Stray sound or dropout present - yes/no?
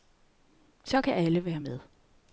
no